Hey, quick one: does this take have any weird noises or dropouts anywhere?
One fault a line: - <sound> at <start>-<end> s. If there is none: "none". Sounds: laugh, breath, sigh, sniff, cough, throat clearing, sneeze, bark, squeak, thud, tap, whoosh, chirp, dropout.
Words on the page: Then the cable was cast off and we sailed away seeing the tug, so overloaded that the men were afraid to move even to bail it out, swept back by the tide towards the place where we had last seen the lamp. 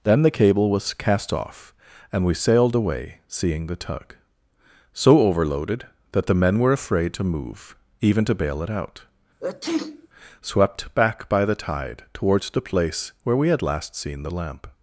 - sneeze at 9.4-10.1 s